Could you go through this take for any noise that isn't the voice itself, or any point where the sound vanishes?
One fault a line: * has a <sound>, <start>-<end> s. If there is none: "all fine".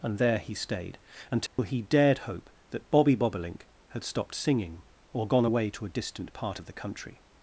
* has a dropout, 1.5-1.6 s